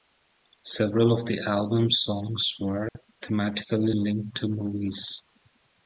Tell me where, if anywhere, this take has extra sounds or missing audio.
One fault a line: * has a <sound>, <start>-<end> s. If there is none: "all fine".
* has a dropout, 2.9-3.0 s